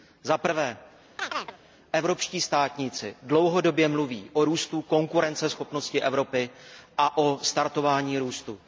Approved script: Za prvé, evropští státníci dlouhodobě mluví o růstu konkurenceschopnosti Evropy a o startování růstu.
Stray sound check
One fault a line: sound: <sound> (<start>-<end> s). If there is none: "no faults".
sound: chirp (1.2-1.6 s)